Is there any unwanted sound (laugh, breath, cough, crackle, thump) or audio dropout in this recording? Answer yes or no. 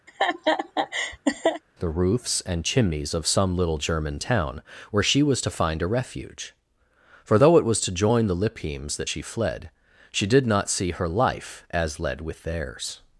yes